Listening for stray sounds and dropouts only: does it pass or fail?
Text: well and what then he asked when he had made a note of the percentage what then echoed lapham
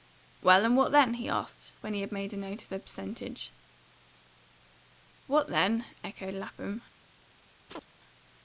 fail